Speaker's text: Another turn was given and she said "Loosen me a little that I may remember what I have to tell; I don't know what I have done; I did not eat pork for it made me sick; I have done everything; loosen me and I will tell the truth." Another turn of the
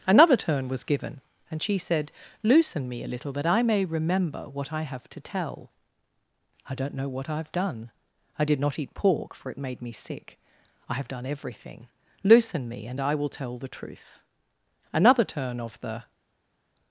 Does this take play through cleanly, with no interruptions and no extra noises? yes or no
yes